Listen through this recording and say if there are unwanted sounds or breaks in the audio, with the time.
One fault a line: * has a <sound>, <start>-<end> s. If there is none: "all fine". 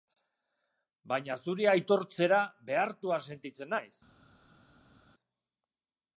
all fine